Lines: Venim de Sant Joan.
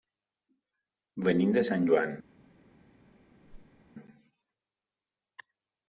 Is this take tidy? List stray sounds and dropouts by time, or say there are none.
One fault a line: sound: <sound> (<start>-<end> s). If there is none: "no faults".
sound: whoosh (3.5-3.8 s)